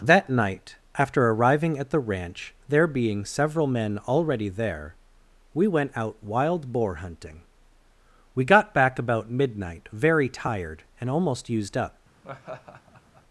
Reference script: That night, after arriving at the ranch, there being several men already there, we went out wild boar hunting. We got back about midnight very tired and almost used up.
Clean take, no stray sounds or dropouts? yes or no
no